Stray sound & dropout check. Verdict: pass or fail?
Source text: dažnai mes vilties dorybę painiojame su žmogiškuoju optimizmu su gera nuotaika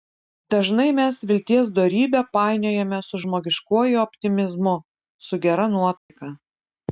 fail